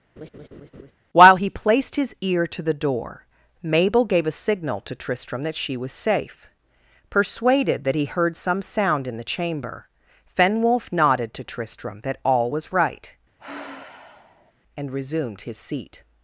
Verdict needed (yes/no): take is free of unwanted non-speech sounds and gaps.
no